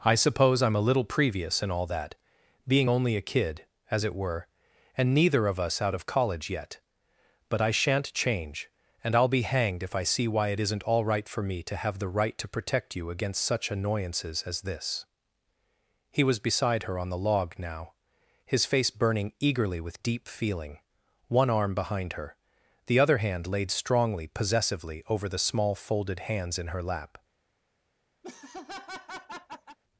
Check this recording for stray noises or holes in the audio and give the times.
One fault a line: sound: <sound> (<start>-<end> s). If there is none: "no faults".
sound: laugh (28.2-29.8 s)